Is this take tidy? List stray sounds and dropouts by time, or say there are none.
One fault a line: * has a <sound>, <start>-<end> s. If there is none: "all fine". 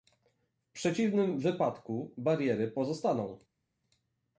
all fine